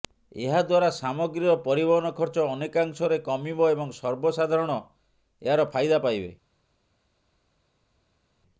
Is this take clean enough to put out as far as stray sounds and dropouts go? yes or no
yes